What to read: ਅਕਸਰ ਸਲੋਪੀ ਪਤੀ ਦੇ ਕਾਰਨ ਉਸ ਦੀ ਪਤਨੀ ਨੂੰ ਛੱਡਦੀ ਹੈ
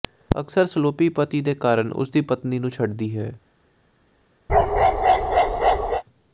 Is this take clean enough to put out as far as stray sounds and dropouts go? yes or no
no